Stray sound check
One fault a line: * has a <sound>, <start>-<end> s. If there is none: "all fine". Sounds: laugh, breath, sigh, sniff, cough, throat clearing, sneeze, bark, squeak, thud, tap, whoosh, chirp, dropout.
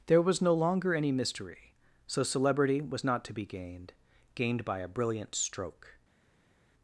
all fine